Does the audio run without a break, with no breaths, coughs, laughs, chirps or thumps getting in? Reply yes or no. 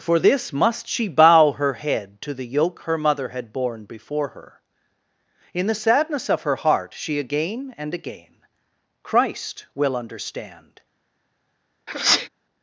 no